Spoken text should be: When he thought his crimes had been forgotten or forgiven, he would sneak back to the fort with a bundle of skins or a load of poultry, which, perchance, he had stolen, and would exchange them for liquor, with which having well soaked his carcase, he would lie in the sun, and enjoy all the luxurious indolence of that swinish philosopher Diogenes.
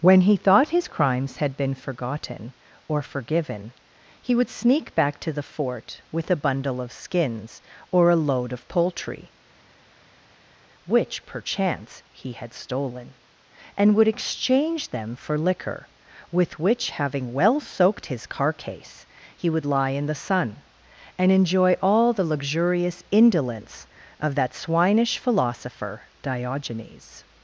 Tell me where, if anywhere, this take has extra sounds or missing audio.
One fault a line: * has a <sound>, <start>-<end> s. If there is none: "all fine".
all fine